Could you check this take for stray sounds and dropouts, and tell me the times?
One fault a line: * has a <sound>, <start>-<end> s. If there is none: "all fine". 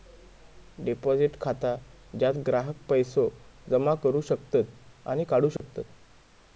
* has a dropout, 5.6-5.6 s